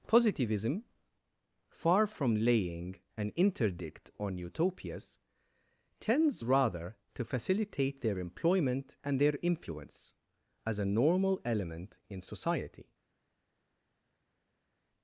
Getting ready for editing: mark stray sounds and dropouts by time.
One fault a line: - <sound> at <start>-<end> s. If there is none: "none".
none